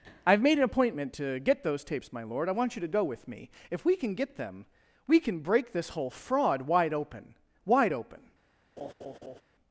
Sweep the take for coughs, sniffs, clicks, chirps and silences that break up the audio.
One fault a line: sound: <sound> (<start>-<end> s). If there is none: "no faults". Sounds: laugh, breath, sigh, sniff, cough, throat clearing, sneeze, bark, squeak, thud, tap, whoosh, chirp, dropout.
sound: laugh (8.8-9.4 s)